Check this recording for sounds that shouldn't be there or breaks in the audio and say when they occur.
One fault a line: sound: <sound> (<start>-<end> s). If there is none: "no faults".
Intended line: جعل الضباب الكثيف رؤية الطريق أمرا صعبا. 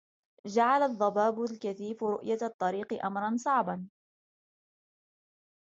no faults